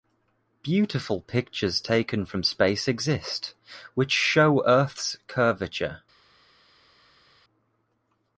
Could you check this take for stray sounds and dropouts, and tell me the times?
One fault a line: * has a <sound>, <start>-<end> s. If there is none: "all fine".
all fine